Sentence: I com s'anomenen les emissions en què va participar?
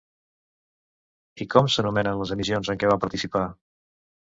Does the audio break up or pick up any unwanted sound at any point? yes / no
no